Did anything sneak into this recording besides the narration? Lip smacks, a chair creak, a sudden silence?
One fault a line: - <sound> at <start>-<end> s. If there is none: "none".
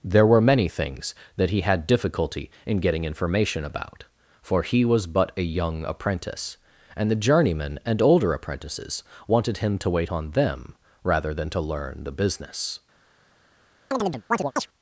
- chirp at 13.9-14.7 s